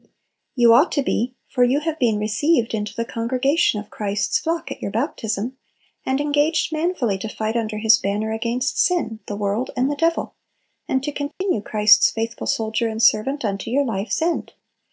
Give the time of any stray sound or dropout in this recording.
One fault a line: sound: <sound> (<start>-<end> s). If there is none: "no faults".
sound: dropout (11.3-11.4 s)